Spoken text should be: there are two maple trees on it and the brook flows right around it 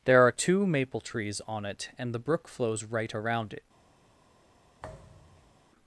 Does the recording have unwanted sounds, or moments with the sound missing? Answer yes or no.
yes